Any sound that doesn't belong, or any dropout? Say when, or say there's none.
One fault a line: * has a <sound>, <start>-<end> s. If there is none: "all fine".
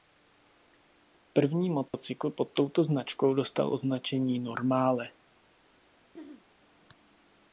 * has a dropout, 1.9-1.9 s
* has a throat clearing, 6.1-6.5 s